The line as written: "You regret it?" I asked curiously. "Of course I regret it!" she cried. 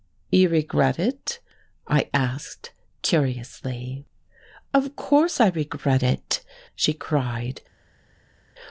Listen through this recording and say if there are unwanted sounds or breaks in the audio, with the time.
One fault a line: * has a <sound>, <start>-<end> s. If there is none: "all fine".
all fine